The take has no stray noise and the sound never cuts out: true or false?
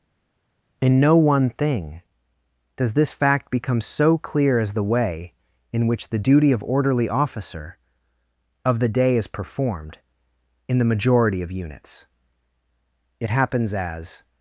true